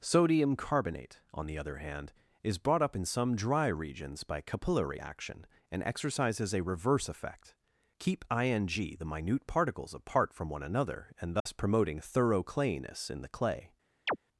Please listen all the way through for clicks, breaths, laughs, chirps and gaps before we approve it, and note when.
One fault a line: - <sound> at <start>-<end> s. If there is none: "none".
- dropout at 11.4-11.5 s
- chirp at 14.1-14.2 s